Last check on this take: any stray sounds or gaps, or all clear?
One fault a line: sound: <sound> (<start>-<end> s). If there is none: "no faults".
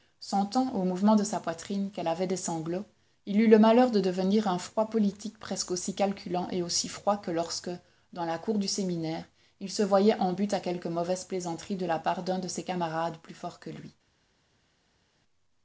no faults